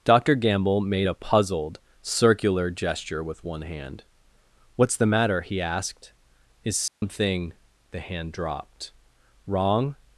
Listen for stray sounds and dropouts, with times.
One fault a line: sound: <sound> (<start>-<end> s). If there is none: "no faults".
sound: dropout (6.9-7.0 s)